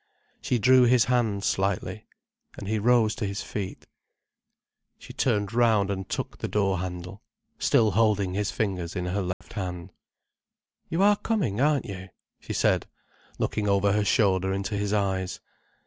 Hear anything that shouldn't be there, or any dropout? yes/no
yes